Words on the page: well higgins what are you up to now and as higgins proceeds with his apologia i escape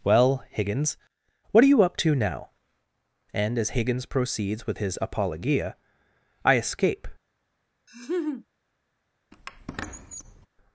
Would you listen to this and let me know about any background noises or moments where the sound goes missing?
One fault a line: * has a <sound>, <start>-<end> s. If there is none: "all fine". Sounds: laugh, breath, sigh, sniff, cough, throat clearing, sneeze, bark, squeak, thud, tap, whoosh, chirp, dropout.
* has a laugh, 7.9-8.5 s
* has a squeak, 9.3-10.5 s